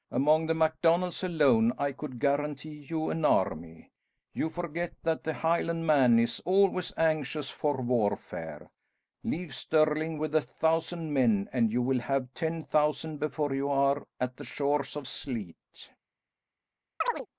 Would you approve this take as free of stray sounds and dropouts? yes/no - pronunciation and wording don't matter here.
no